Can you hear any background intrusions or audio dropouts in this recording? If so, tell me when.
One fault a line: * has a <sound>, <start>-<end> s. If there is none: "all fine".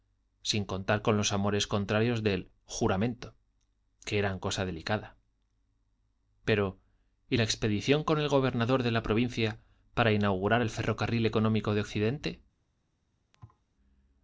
* has a thud, 13.3-13.6 s